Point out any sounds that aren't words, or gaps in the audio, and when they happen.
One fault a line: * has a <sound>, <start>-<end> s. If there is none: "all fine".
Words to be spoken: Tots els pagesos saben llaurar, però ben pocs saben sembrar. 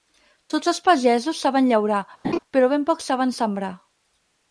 * has a laugh, 2.2-2.4 s